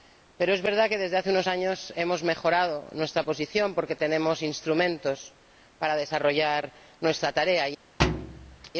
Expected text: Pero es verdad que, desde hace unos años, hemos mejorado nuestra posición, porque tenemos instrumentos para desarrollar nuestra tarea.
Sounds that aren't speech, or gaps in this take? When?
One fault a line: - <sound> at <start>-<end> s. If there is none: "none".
- thud at 8.0-8.7 s